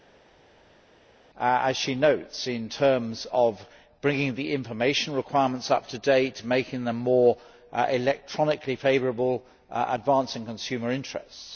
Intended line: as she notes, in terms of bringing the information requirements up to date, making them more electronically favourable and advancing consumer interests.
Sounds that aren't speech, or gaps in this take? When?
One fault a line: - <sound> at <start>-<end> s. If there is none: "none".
none